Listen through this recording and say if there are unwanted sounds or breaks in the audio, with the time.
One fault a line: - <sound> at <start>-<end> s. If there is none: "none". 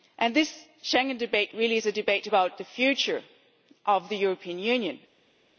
none